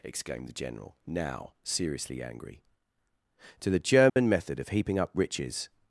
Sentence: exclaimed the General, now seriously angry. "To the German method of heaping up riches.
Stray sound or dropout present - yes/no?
yes